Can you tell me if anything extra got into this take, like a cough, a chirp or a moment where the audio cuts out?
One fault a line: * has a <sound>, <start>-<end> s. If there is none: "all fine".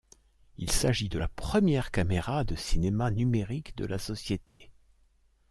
* has a dropout, 4.5-4.6 s